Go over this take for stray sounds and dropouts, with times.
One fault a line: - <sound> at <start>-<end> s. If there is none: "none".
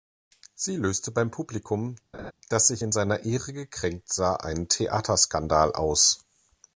- laugh at 2.1-2.3 s